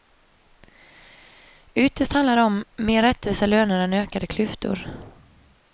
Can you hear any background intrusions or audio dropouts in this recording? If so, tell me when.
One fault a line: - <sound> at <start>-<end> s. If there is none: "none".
none